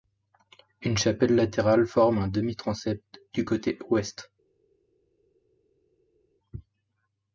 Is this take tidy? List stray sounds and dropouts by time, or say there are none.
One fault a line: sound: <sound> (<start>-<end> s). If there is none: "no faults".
no faults